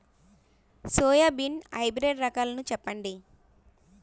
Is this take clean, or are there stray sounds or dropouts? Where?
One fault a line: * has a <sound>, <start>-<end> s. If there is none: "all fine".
all fine